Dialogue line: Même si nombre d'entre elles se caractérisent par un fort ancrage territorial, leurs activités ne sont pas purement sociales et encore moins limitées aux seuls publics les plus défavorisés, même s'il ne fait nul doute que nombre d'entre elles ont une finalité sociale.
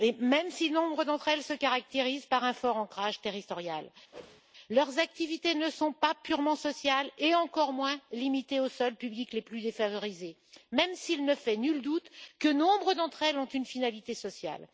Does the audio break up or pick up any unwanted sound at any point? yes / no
yes